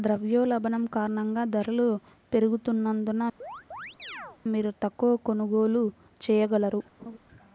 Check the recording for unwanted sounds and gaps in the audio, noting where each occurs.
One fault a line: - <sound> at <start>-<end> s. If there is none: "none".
- chirp at 3.4-4.4 s
- laugh at 7.0-7.2 s